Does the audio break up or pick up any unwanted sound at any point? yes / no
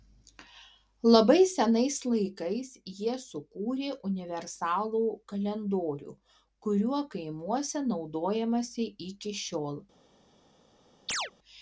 yes